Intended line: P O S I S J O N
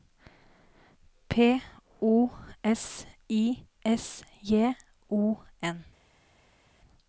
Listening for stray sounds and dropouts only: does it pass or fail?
pass